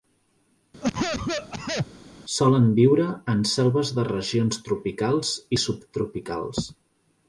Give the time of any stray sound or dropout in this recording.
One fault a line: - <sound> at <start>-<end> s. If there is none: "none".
- cough at 0.8-1.9 s